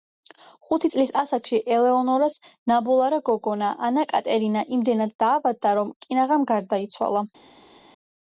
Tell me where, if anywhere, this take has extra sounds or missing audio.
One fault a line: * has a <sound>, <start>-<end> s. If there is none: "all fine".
all fine